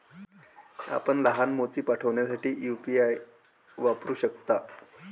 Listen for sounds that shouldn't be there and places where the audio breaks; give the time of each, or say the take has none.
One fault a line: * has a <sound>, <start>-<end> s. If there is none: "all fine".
all fine